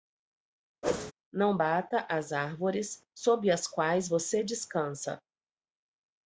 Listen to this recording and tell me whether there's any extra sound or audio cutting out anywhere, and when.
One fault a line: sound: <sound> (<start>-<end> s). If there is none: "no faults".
sound: whoosh (0.8-1.1 s)